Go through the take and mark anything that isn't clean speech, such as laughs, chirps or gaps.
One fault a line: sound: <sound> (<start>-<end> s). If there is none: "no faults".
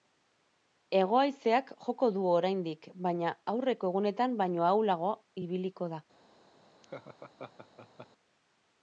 sound: laugh (6.8-8.1 s)